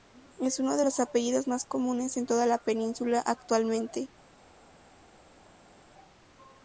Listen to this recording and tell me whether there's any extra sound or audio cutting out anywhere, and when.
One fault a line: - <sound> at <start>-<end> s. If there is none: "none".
none